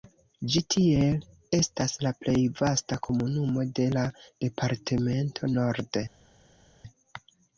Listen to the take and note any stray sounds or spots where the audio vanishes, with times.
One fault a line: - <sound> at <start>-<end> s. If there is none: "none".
none